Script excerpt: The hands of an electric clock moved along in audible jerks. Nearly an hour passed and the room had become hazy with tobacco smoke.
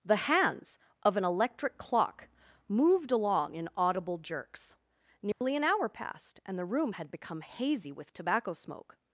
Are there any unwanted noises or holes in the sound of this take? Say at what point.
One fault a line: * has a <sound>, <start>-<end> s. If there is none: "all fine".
* has a dropout, 5.3-5.4 s